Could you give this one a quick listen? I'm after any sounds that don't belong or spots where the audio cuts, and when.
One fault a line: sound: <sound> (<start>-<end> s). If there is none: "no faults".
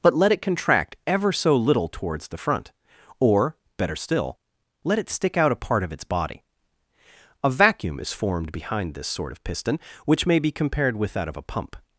no faults